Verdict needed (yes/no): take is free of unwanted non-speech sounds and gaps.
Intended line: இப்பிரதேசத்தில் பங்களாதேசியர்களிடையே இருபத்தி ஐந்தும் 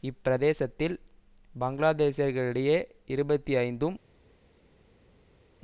yes